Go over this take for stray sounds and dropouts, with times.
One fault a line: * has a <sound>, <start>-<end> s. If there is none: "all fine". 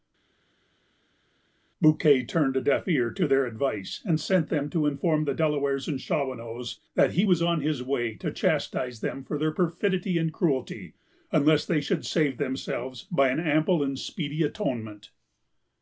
all fine